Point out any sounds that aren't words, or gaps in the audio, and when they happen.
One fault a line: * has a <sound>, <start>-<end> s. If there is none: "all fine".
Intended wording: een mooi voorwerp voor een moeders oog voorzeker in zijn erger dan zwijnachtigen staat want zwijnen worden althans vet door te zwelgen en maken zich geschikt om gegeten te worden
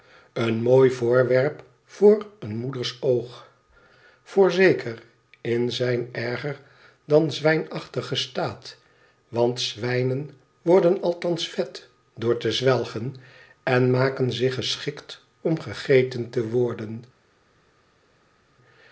all fine